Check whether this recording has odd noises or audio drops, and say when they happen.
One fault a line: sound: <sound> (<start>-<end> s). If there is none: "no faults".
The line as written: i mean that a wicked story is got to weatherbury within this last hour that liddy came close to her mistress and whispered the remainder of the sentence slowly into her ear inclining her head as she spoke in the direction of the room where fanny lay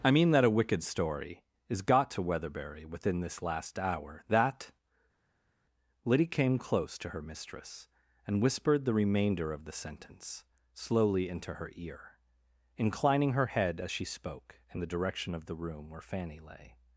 no faults